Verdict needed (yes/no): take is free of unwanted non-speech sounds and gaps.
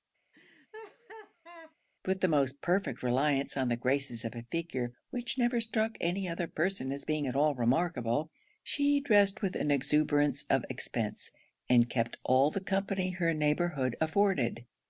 no